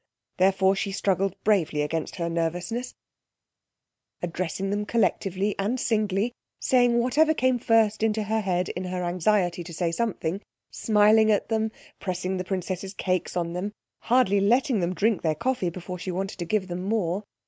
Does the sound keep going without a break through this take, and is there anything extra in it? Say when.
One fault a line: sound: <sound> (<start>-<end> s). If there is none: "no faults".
no faults